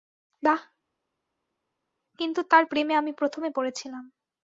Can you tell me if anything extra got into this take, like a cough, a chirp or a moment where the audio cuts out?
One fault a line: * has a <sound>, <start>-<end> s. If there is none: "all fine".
all fine